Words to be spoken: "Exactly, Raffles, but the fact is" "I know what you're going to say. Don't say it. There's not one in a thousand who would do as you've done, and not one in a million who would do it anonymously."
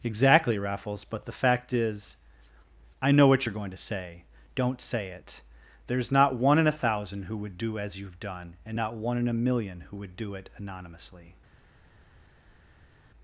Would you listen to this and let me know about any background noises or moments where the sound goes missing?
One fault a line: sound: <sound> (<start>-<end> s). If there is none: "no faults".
no faults